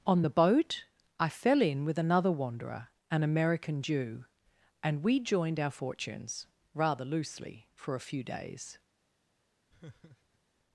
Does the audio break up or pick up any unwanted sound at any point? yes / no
yes